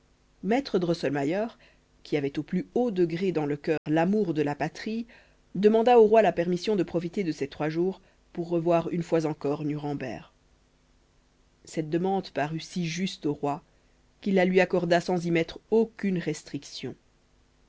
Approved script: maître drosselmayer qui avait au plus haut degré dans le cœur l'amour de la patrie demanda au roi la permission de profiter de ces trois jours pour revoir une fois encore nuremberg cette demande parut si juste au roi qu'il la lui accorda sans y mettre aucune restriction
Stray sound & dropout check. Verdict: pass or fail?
fail